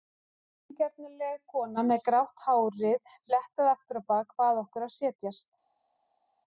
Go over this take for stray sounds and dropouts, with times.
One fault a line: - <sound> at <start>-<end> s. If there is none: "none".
none